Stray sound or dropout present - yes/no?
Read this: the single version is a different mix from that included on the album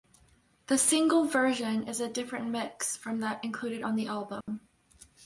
yes